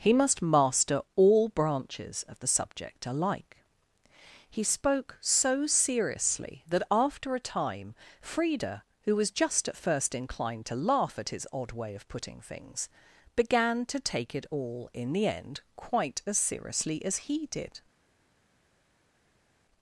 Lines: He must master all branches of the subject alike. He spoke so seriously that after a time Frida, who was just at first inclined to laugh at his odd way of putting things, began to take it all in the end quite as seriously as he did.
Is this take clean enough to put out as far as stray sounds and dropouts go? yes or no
yes